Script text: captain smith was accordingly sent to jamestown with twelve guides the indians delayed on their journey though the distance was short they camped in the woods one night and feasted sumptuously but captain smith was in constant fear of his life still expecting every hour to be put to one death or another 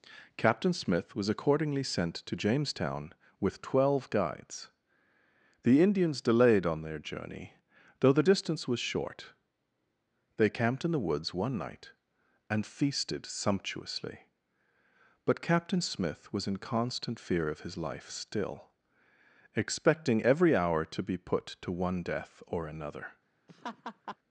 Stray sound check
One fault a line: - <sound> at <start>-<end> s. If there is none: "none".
- laugh at 23.5-24.2 s